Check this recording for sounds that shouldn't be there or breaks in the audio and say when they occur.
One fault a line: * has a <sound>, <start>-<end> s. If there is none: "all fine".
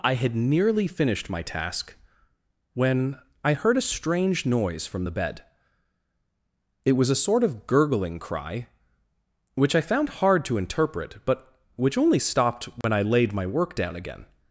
* has a dropout, 12.8-12.8 s